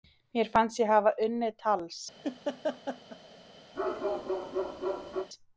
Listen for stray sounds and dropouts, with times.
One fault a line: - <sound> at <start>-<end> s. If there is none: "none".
- laugh at 2.2-3.2 s
- bark at 3.7-5.3 s